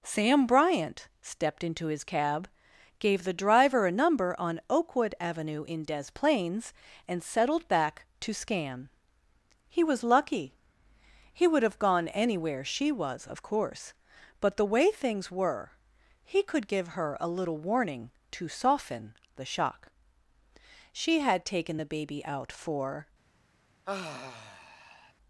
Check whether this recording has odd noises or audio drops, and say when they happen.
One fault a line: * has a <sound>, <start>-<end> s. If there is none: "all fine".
* has a sigh, 23.9-25.1 s